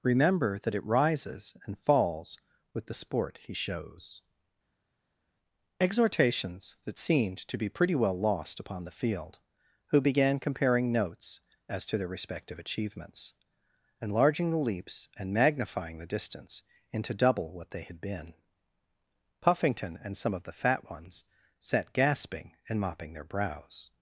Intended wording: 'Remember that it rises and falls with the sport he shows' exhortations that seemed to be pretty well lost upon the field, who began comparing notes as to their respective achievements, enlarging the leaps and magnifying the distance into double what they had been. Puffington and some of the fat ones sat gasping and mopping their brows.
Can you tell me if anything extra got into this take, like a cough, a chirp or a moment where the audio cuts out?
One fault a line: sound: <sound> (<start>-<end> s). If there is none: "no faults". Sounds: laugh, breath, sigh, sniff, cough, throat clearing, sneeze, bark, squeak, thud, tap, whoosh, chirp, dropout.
no faults